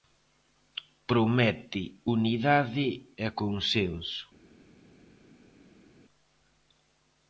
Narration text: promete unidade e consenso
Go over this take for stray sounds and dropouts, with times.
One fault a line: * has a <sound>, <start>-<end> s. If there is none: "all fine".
all fine